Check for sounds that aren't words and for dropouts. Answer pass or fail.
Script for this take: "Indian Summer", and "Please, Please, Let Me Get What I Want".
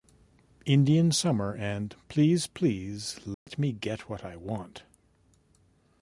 fail